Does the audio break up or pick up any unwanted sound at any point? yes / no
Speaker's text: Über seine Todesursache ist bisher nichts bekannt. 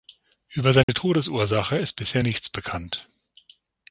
yes